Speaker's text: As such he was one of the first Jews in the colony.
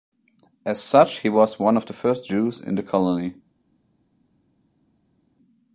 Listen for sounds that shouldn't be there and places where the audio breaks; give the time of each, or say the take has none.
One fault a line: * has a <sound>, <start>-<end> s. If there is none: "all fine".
all fine